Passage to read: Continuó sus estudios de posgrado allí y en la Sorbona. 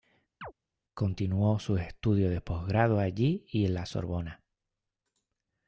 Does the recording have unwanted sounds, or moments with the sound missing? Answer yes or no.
yes